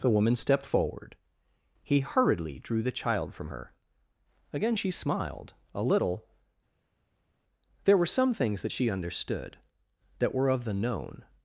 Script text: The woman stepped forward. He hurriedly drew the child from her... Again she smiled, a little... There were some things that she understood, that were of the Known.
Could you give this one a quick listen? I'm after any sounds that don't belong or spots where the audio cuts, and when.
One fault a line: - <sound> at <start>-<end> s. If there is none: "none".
none